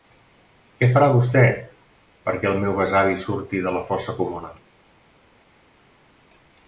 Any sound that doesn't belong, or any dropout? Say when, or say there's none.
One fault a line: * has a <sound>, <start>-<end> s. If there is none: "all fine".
all fine